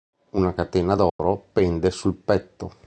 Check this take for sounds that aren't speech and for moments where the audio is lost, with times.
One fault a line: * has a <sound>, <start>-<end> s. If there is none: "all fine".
* has a dropout, 1.1-1.2 s